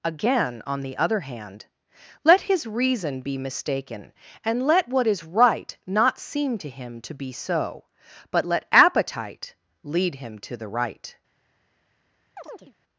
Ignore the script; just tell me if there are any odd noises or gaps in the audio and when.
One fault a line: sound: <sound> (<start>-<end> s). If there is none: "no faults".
sound: chirp (12.4-12.7 s)